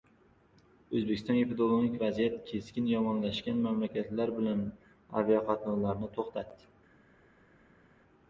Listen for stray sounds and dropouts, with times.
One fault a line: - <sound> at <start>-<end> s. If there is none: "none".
none